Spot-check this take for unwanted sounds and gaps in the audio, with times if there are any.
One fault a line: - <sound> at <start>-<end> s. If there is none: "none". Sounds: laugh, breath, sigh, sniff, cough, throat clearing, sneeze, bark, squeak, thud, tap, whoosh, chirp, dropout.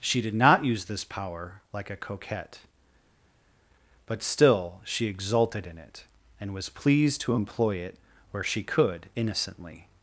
none